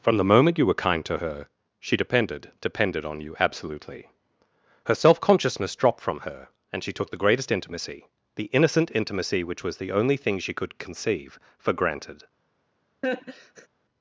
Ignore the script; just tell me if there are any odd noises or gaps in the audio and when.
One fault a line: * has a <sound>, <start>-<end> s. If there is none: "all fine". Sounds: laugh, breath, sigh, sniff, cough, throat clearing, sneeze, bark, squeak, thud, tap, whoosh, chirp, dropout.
* has a laugh, 13.0-13.7 s